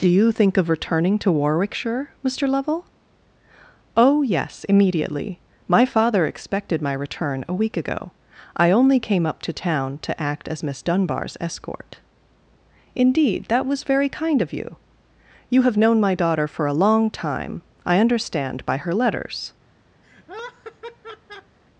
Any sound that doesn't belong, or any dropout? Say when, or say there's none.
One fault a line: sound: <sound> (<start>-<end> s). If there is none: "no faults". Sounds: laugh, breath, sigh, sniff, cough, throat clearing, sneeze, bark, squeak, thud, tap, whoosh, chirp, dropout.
sound: laugh (20.0-21.6 s)